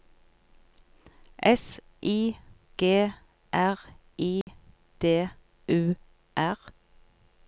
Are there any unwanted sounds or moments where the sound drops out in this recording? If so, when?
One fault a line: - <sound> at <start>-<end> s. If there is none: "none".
- dropout at 4.4-4.5 s